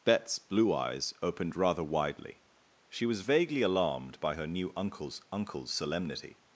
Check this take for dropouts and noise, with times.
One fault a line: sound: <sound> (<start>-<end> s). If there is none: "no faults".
no faults